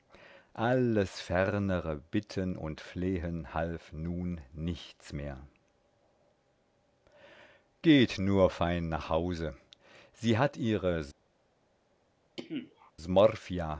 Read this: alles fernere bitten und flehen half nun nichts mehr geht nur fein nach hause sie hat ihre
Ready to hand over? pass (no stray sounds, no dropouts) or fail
fail